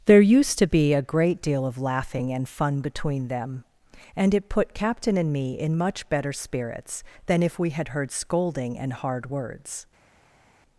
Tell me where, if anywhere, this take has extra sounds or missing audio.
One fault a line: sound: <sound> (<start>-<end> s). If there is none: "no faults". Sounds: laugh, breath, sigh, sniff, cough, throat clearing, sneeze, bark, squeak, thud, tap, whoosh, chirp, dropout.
no faults